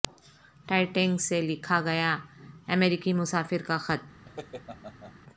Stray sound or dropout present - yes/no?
yes